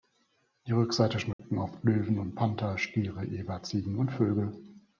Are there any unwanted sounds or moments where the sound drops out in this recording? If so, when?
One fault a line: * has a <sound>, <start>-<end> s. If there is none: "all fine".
* has a dropout, 1.3-1.4 s